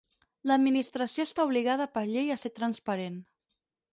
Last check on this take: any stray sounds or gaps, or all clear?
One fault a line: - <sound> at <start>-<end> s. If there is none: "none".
none